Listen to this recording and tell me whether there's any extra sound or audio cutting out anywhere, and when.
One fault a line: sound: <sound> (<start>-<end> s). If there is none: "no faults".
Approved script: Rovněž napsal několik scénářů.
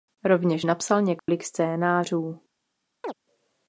sound: dropout (1.2-1.3 s)
sound: chirp (3.0-3.1 s)